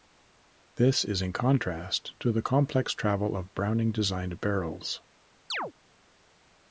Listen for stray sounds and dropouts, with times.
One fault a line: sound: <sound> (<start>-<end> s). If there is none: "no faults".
sound: chirp (5.5-5.7 s)